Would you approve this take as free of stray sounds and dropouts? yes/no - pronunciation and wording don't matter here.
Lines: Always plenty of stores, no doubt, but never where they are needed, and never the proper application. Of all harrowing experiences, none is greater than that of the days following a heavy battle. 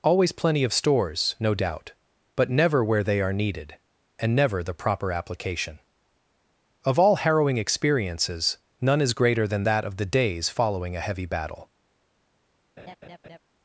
no